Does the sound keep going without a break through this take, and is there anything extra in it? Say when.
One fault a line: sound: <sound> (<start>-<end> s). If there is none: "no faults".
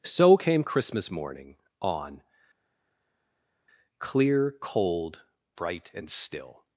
no faults